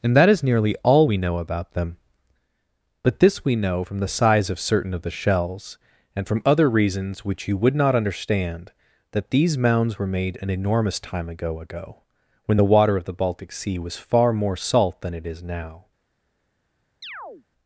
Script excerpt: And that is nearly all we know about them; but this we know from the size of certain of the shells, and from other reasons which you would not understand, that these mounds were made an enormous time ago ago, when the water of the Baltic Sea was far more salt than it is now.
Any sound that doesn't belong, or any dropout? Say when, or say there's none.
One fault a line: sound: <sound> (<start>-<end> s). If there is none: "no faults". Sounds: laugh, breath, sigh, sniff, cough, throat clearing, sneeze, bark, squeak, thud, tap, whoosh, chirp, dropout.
sound: chirp (17.0-17.5 s)